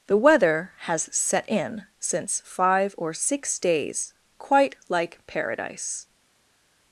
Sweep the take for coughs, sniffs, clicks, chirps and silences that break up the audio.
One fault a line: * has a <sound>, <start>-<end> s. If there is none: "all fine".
all fine